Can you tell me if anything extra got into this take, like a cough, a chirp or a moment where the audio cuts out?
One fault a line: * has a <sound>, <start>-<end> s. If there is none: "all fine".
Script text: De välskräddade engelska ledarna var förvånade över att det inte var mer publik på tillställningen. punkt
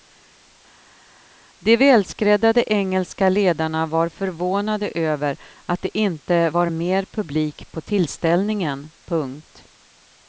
all fine